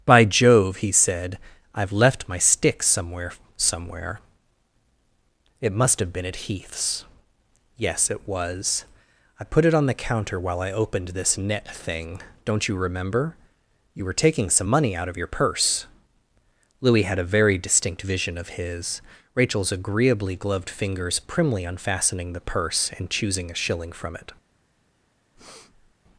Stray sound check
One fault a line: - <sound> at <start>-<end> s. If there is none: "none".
- breath at 25.3-25.9 s